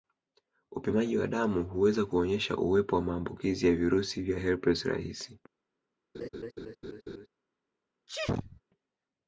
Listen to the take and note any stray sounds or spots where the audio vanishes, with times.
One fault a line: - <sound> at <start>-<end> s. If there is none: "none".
- laugh at 6.1-7.3 s
- sneeze at 8.1-8.6 s